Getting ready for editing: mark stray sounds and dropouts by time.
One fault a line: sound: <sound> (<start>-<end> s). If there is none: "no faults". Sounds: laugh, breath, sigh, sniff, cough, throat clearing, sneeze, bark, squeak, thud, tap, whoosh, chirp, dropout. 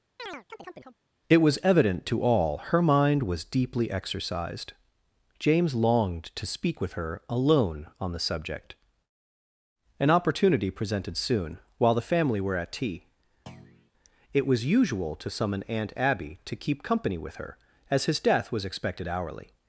sound: chirp (0.2-1.0 s)
sound: thud (13.5-13.9 s)